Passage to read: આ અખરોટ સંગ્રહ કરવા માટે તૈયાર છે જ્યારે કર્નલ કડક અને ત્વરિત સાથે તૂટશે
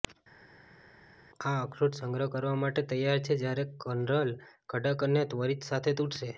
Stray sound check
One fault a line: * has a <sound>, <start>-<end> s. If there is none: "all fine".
all fine